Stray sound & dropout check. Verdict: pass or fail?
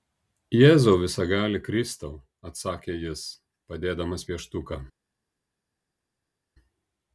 pass